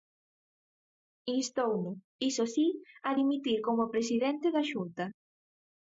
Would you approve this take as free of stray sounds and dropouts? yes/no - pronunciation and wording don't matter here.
yes